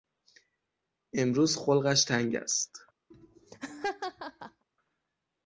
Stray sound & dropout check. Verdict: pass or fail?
fail